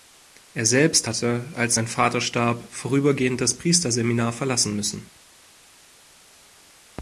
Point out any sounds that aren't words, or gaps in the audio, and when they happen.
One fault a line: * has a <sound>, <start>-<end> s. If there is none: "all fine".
all fine